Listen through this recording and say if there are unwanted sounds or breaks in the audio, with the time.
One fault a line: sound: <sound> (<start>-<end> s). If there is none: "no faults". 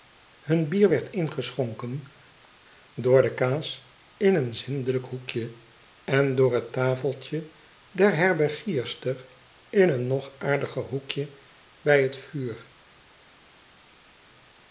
no faults